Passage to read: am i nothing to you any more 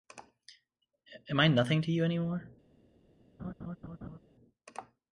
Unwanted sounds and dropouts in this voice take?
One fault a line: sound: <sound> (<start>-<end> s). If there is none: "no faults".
sound: laugh (3.4-4.2 s)